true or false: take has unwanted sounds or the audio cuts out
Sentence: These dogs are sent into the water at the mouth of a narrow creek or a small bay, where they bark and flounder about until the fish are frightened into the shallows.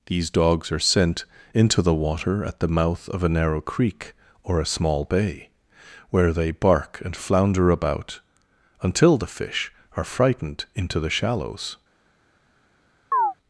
true